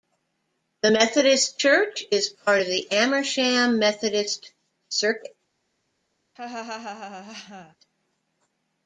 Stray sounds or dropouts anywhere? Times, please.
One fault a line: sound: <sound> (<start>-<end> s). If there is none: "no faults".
sound: laugh (6.4-7.8 s)